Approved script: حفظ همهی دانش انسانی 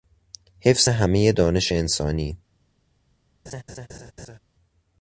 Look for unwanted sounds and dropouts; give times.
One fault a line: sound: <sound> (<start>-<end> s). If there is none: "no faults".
sound: laugh (3.5-4.4 s)